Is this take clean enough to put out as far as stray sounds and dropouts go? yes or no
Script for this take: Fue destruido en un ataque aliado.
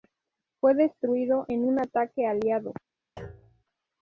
no